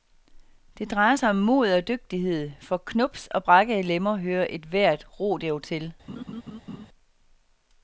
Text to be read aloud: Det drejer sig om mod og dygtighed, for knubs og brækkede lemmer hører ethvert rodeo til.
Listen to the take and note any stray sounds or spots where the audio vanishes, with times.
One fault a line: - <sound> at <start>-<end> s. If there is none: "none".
- laugh at 6.1-6.9 s